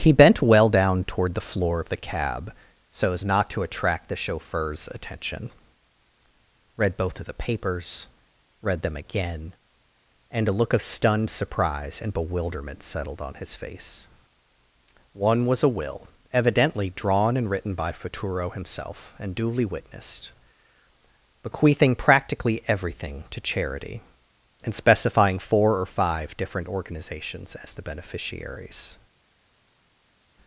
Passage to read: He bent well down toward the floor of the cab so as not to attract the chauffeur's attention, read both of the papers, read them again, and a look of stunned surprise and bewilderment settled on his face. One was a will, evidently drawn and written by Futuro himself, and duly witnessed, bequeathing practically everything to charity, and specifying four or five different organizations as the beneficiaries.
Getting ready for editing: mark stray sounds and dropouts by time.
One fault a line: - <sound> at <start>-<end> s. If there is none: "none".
none